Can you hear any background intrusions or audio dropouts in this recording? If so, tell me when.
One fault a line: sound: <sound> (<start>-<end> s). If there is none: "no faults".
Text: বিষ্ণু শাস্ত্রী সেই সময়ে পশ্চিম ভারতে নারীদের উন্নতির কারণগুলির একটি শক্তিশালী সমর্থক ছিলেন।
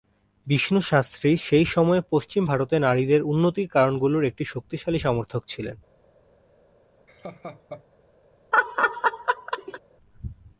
sound: laugh (7.1-7.8 s)
sound: laugh (8.5-9.8 s)